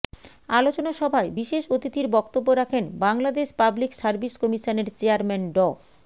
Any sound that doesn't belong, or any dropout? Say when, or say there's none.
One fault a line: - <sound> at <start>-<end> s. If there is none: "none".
none